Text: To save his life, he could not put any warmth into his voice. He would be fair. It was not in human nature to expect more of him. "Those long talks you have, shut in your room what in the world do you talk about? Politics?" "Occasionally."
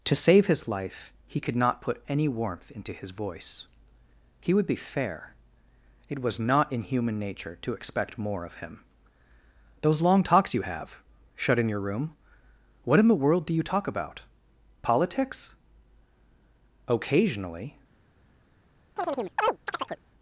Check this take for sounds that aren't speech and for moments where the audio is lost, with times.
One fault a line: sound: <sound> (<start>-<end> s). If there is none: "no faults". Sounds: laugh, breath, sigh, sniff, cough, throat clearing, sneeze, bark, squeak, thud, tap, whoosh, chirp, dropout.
sound: chirp (19.0-20.0 s)